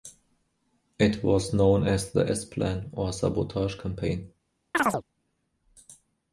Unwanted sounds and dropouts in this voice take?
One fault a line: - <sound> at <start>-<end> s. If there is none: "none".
- chirp at 4.7-5.0 s